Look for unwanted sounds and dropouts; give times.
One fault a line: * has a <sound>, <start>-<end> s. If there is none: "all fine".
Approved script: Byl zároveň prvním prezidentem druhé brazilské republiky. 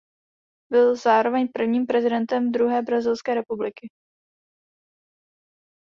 all fine